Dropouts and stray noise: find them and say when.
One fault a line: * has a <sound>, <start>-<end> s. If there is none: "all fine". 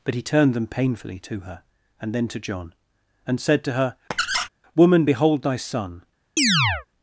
* has a squeak, 4.1-4.5 s
* has a chirp, 6.4-6.9 s